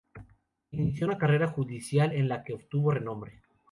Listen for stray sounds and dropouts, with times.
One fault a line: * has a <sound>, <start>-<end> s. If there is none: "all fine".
all fine